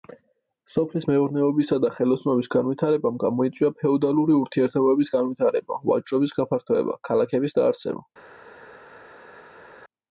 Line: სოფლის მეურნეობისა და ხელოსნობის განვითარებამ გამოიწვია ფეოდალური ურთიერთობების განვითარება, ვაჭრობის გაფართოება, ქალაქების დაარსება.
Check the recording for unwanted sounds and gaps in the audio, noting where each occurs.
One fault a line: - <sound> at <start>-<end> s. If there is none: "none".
none